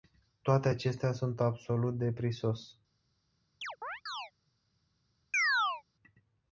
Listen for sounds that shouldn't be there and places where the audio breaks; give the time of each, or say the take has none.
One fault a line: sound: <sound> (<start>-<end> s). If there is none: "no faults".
sound: chirp (3.6-4.3 s)
sound: chirp (5.3-5.8 s)